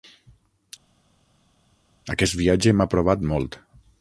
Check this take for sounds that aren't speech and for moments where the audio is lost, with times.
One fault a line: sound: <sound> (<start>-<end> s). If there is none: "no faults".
no faults